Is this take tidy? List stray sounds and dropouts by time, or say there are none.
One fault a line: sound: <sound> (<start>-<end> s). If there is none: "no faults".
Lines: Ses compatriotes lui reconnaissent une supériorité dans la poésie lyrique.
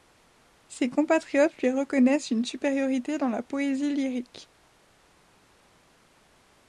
no faults